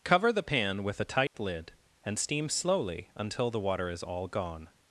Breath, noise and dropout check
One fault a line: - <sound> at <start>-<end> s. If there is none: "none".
- dropout at 1.3-1.3 s